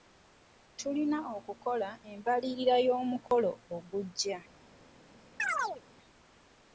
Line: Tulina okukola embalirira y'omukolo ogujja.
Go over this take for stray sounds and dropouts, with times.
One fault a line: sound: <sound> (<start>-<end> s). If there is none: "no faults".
sound: dropout (3.3-3.3 s)
sound: chirp (5.4-5.8 s)